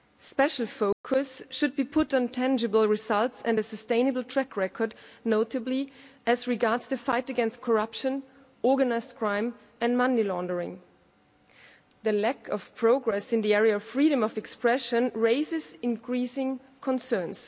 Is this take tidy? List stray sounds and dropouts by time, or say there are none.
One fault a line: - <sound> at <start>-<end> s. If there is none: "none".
- dropout at 0.9-1.0 s